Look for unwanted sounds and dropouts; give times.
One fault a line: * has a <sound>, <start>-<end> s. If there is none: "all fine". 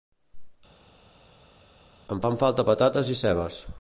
all fine